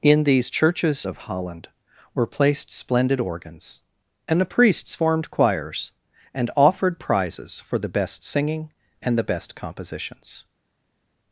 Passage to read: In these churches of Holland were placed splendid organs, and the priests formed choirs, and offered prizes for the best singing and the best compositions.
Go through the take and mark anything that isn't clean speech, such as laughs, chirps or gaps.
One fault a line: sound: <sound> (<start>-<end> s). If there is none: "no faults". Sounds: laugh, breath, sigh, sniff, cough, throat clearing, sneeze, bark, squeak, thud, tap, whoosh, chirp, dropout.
no faults